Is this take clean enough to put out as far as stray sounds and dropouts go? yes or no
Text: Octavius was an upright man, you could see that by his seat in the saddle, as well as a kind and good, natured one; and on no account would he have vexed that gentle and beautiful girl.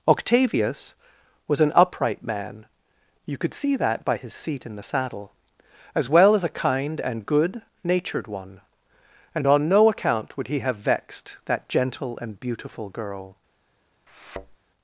no